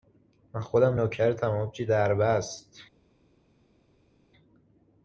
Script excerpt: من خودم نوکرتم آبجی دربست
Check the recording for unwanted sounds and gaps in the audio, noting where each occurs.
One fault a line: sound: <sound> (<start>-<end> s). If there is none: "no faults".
no faults